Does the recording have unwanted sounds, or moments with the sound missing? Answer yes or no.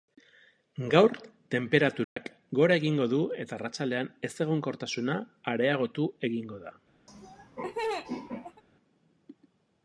yes